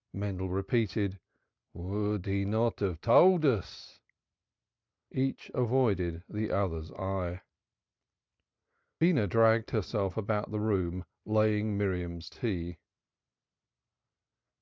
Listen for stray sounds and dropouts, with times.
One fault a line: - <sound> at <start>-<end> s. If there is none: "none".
none